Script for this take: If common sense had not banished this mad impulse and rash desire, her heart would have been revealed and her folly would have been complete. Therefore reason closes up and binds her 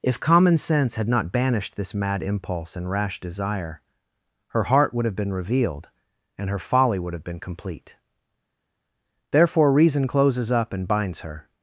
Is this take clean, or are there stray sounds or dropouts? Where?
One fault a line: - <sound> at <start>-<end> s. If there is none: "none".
none